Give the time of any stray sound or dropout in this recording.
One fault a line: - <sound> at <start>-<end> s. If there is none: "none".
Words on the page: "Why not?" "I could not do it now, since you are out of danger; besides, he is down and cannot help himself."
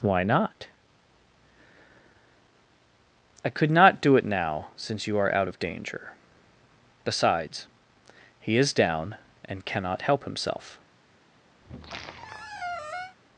- squeak at 11.6-13.2 s